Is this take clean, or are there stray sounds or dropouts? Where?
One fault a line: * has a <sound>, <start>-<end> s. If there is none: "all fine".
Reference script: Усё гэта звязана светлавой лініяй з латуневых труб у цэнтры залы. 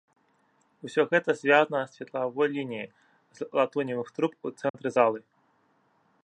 * has a dropout, 4.7-4.7 s